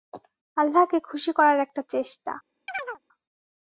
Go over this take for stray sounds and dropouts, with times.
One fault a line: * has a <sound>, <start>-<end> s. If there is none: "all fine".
* has a chirp, 2.7-3.0 s